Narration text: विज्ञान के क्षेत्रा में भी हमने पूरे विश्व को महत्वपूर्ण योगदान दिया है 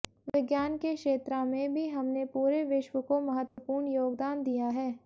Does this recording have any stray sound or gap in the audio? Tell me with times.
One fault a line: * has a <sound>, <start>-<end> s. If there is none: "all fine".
* has a dropout, 3.5-3.6 s